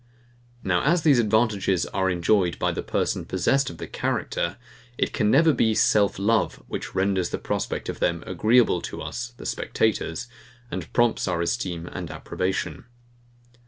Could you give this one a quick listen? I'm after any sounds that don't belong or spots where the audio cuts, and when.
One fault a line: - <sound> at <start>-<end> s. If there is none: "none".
none